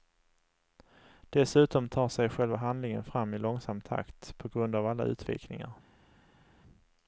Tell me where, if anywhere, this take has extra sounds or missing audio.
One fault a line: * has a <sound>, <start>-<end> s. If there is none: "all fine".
all fine